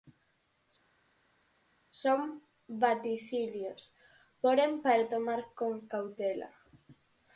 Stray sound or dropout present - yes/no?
no